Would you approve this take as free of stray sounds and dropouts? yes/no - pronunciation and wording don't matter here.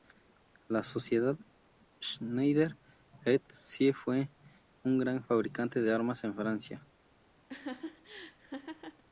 no